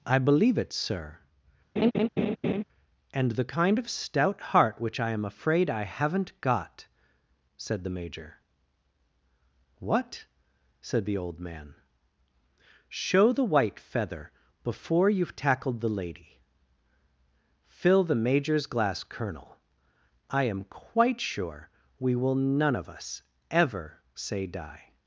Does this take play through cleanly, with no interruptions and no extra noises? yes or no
no